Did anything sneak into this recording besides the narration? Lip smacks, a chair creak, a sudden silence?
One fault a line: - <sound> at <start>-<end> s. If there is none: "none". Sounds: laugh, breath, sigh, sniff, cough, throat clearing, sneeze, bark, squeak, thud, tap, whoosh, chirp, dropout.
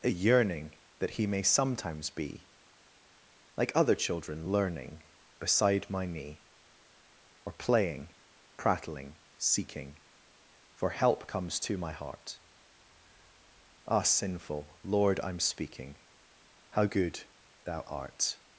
none